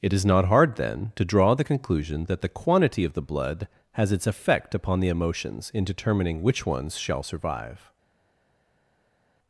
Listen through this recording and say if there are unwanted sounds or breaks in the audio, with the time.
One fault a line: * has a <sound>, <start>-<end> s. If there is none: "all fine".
all fine